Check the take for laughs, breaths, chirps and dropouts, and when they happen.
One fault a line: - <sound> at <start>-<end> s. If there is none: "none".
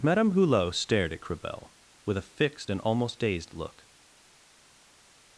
none